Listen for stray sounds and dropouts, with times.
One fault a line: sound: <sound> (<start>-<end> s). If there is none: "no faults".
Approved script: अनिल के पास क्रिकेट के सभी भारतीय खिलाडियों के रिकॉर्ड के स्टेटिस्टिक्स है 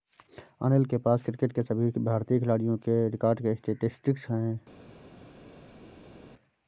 no faults